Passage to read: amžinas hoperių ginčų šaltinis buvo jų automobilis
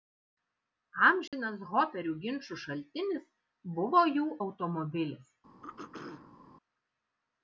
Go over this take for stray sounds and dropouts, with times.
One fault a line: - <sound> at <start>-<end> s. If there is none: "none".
- dropout at 1.3-1.3 s
- throat clearing at 5.6-6.4 s